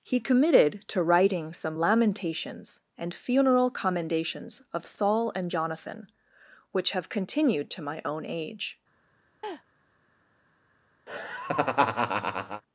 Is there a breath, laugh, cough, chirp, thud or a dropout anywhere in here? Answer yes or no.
yes